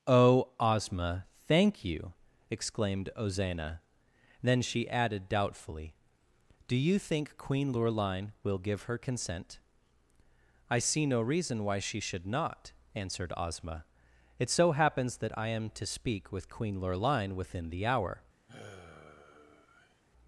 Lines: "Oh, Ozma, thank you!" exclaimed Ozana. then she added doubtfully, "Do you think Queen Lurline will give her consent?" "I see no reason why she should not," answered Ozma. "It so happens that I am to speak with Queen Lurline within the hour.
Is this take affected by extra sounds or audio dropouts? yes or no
yes